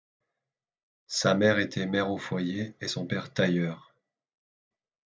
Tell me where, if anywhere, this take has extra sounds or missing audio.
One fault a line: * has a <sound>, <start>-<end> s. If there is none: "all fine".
all fine